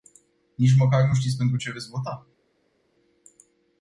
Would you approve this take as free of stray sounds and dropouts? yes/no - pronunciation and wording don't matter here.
yes